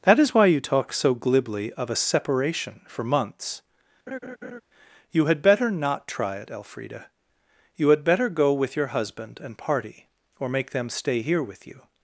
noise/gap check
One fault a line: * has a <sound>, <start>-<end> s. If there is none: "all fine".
* has a laugh, 4.1-4.6 s